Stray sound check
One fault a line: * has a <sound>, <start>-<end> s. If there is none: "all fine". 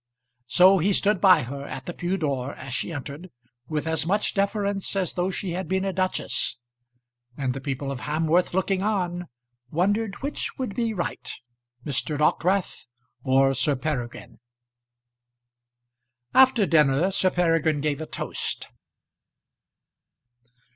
all fine